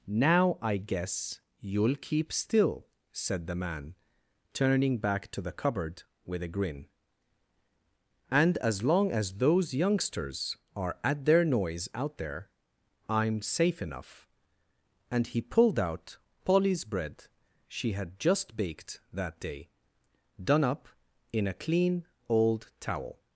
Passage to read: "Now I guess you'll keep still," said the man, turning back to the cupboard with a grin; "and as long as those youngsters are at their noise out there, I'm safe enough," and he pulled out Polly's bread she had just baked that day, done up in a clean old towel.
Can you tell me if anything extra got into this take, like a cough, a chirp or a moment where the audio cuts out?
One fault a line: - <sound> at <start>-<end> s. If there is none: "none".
none